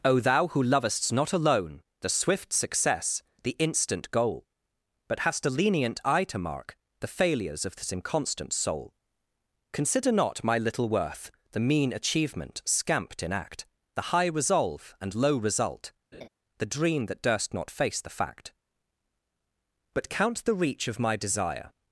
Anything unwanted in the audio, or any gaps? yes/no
yes